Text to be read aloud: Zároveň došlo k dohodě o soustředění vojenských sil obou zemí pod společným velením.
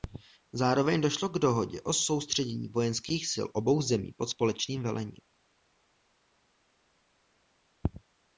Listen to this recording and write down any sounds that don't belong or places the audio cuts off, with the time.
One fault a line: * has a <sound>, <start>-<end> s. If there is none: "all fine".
all fine